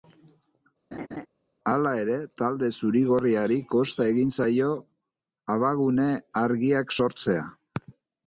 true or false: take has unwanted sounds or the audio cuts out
true